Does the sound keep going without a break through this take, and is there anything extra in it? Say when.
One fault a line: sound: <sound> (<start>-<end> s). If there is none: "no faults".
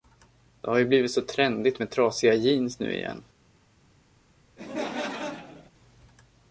sound: laugh (4.6-5.7 s)